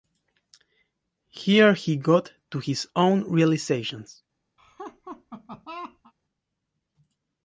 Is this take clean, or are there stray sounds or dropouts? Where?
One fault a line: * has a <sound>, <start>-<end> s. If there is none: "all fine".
* has a laugh, 4.6-6.1 s